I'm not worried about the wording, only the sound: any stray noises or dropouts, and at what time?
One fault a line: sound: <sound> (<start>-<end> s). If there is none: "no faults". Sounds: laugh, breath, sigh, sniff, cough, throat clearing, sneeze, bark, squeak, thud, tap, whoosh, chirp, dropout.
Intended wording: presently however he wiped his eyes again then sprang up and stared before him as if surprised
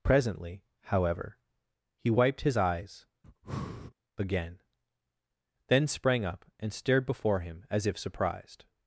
sound: breath (3.2-3.9 s)